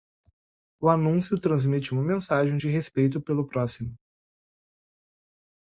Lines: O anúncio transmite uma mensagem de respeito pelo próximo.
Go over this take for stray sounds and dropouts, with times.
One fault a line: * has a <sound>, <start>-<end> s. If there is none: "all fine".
all fine